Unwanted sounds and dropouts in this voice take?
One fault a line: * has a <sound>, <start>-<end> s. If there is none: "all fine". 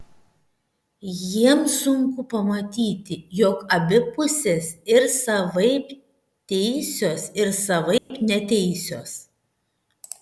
* has a dropout, 8.0-8.1 s